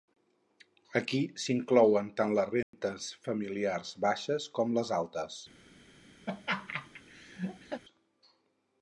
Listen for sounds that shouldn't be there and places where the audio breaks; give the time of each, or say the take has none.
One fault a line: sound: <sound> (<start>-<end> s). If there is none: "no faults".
sound: dropout (2.6-2.7 s)
sound: laugh (6.3-7.8 s)